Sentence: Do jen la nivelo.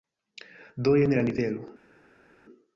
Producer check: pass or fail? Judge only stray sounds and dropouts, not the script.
pass